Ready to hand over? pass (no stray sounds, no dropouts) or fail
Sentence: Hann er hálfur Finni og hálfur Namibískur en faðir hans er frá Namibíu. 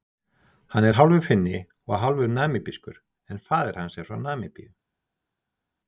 pass